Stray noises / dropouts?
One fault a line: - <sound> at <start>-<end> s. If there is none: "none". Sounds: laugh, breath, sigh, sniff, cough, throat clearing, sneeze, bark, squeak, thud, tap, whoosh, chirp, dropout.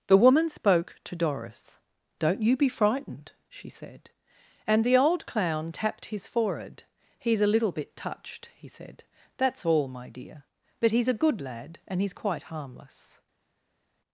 none